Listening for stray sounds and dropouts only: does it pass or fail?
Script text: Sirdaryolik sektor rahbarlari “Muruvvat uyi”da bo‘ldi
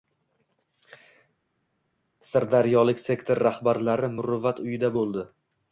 pass